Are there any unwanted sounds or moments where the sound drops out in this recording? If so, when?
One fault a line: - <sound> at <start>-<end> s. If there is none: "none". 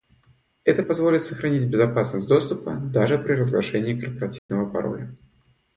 - dropout at 4.4-4.5 s